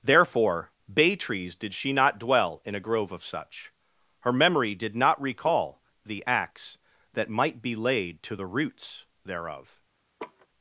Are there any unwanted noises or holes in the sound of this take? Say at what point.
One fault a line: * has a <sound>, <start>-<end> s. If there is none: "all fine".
* has a laugh, 10.2-10.5 s